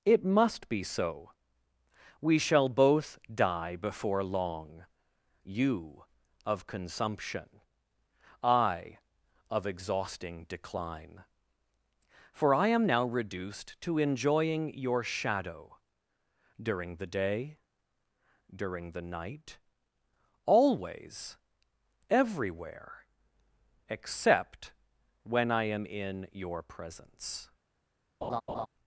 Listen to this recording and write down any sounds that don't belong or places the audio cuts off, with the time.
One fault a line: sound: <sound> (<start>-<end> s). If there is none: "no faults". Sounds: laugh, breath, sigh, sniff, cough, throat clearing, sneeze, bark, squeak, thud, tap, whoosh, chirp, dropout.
sound: laugh (28.2-28.7 s)